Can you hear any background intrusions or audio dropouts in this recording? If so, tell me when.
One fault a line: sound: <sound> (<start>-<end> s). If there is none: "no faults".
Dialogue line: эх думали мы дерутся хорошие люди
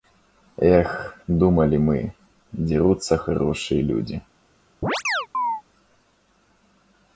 sound: chirp (4.8-5.6 s)